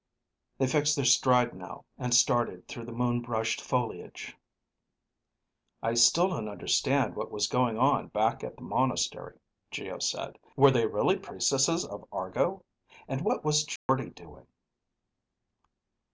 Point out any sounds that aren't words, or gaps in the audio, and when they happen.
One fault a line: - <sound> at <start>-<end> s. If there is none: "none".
- dropout at 13.8-13.9 s